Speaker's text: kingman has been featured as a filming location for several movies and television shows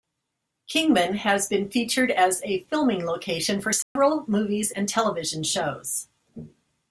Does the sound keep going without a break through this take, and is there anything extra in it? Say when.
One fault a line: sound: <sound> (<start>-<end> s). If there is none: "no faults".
sound: dropout (3.8-4.0 s)